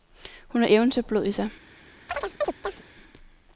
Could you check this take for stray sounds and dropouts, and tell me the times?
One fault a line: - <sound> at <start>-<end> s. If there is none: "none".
- chirp at 2.1-2.8 s